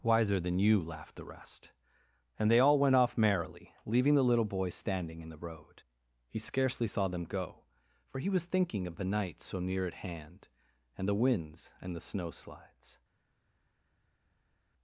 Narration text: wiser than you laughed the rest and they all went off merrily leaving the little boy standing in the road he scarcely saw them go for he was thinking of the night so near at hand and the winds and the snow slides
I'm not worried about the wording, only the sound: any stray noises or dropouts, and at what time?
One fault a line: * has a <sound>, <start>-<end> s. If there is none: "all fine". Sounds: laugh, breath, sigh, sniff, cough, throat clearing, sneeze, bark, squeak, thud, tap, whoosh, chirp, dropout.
all fine